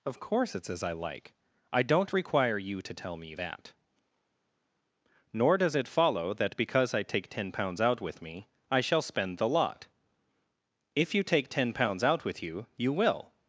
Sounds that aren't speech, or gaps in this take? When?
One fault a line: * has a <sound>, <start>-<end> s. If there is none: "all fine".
all fine